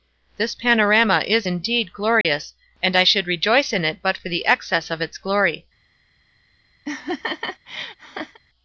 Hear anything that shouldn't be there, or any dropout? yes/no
yes